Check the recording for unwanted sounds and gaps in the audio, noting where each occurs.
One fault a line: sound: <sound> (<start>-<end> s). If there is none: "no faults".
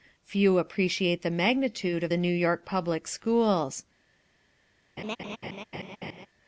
sound: laugh (5.0-6.3 s)